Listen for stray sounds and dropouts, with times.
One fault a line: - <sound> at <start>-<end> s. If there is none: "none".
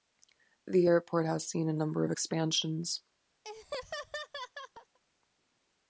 - laugh at 3.4-5.0 s